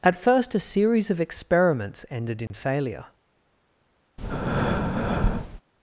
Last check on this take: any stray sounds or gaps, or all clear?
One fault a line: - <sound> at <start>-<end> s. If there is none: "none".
- dropout at 2.5-2.5 s
- breath at 4.2-5.6 s